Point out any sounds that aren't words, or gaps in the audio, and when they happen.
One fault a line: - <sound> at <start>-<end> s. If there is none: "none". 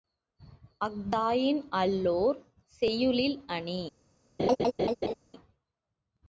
- laugh at 4.4-5.1 s